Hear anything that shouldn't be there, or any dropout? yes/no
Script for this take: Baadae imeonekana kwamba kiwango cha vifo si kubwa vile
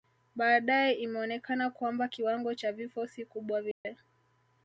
yes